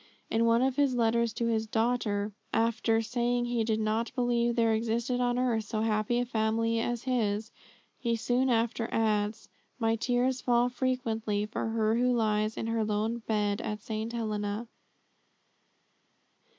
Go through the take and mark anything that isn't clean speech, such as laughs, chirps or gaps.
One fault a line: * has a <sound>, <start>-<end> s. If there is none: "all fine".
all fine